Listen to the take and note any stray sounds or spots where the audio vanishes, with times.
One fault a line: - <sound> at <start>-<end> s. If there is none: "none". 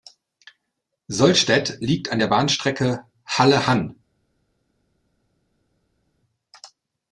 none